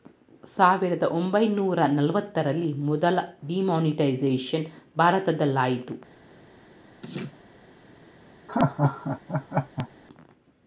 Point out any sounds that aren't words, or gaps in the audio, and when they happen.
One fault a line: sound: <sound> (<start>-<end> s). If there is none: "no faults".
sound: laugh (7.0-7.4 s)
sound: laugh (8.5-9.9 s)